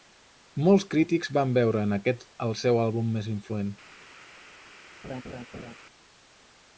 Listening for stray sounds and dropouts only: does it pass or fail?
fail